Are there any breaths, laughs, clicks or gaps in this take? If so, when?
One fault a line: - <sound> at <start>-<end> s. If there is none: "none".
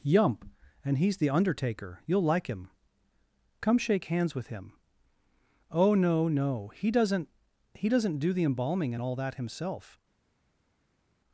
none